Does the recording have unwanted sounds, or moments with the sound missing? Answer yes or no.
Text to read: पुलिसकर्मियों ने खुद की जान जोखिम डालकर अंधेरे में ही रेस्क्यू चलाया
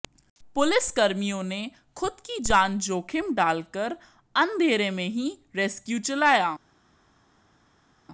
no